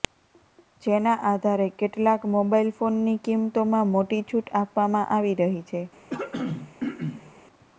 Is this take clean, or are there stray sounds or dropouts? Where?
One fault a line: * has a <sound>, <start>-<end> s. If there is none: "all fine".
* has a throat clearing, 6.1-7.3 s